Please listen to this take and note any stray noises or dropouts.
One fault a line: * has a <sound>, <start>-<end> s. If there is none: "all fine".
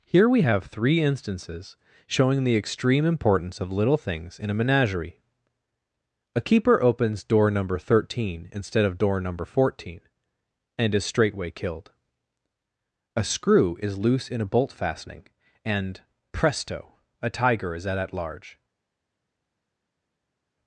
all fine